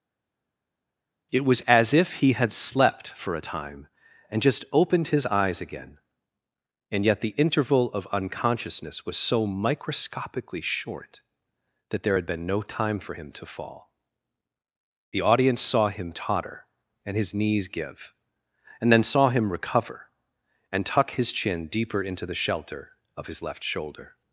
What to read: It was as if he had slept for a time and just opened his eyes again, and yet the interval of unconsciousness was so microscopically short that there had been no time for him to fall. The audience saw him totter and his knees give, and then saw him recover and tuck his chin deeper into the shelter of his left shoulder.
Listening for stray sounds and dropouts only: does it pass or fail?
pass